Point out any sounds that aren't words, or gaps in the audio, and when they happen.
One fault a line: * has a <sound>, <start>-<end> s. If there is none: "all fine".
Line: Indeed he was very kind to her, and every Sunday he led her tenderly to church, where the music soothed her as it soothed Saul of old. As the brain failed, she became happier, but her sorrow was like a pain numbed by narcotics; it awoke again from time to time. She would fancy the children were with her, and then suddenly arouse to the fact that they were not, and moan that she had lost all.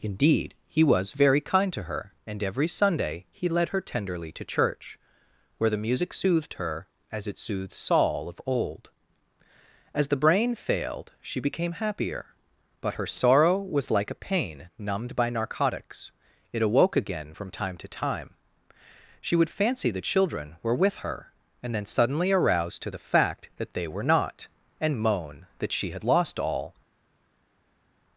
all fine